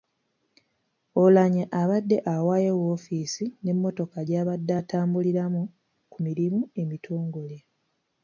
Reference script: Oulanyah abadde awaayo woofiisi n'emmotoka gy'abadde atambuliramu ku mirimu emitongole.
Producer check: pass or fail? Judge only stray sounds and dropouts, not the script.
pass